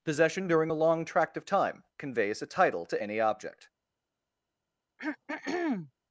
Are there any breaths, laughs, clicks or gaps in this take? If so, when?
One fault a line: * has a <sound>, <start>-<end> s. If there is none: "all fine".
* has a throat clearing, 5.0-5.9 s